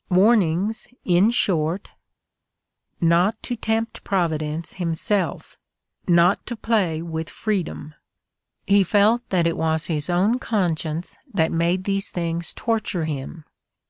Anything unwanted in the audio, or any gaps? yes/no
no